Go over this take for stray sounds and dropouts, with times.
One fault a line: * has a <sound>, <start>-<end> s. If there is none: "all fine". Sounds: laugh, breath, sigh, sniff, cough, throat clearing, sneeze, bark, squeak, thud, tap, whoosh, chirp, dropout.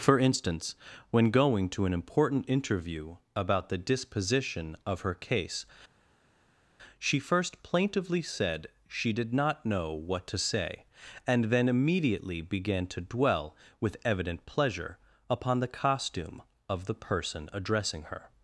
all fine